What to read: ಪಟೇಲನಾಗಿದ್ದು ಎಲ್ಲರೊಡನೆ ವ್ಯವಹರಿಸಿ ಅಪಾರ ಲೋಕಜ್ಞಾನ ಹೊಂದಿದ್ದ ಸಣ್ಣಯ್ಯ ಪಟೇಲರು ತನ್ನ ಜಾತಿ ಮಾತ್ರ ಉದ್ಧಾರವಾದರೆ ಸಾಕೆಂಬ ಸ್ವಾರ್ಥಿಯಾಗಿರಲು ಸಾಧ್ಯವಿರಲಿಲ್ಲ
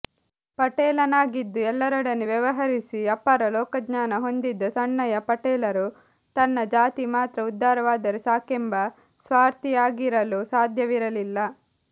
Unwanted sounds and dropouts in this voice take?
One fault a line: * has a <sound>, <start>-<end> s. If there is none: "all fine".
all fine